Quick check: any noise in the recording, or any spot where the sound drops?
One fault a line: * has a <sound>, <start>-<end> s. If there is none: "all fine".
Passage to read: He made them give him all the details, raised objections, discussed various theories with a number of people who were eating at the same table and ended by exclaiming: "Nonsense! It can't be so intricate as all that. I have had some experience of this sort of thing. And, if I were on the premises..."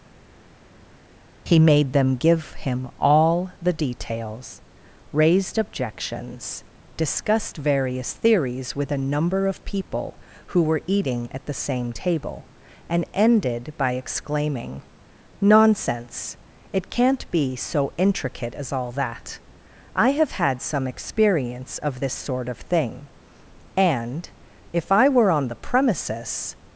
all fine